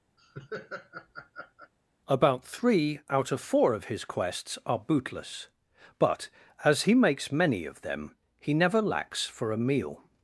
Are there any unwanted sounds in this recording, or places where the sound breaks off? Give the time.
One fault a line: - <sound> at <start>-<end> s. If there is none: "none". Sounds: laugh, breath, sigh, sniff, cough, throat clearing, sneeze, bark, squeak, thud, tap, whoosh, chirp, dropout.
- laugh at 0.2-1.7 s